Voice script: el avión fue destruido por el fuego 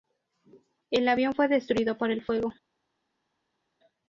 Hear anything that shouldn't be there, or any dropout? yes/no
no